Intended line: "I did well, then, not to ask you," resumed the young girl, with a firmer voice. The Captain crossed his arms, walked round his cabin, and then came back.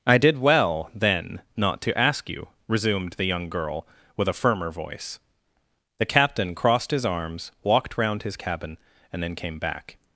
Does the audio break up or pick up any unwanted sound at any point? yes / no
no